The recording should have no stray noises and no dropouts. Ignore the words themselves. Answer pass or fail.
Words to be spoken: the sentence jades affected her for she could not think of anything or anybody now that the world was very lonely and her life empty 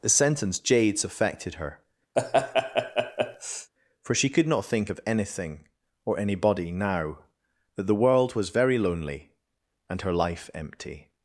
fail